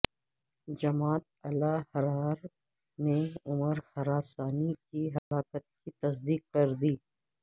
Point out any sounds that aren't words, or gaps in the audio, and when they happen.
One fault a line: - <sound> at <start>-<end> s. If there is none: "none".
- dropout at 5.2-5.3 s